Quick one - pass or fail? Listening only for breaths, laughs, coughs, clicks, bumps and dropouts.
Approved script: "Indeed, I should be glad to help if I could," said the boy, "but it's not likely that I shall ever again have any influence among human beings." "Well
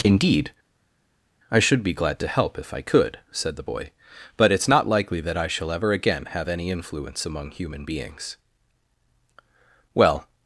pass